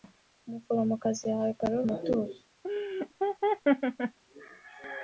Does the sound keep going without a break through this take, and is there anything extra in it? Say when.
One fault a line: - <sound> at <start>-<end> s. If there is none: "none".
- laugh at 2.6-4.2 s